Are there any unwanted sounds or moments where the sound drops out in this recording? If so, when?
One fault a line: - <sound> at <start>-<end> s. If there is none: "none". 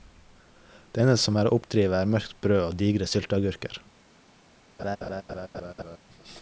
- laugh at 4.8-6.0 s